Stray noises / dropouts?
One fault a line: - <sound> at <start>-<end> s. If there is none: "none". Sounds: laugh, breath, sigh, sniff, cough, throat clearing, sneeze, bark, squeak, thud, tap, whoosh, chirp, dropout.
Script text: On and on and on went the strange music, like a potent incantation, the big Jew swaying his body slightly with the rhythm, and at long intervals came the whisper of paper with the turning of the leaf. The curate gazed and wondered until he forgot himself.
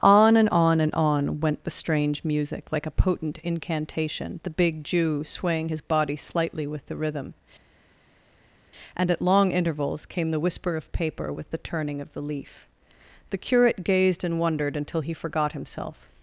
none